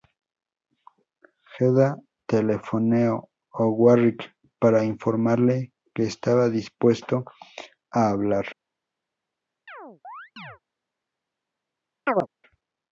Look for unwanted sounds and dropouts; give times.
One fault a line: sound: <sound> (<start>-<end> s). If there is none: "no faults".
sound: chirp (9.7-10.6 s)
sound: chirp (12.1-12.3 s)